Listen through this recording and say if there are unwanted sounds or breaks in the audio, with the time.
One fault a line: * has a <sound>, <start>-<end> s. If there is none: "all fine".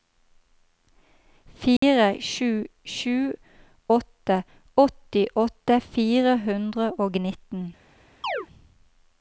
* has a dropout, 1.8-1.8 s
* has a chirp, 8.2-8.5 s